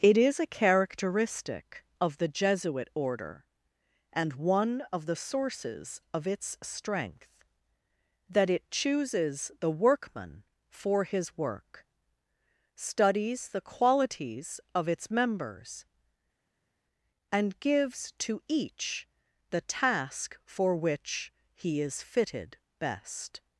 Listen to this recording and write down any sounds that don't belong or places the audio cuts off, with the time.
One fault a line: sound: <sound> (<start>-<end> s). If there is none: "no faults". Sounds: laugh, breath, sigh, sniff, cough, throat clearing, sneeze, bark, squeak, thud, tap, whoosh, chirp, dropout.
no faults